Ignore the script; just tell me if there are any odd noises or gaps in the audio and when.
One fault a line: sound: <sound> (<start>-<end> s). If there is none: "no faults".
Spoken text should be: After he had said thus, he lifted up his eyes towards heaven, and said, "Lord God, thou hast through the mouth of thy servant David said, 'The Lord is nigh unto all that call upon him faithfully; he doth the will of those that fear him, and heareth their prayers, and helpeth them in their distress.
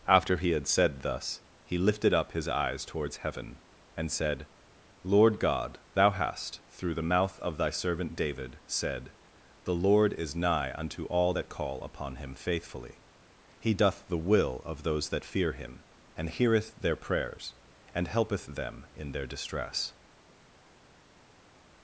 no faults